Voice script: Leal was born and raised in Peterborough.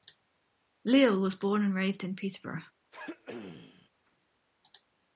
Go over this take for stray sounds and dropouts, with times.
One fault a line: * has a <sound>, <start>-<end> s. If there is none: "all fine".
* has a throat clearing, 2.9-3.9 s